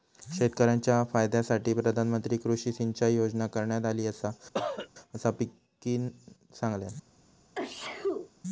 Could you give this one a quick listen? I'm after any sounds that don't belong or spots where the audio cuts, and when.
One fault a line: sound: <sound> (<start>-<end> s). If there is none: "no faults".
sound: cough (4.5-4.9 s)
sound: sneeze (7.5-8.3 s)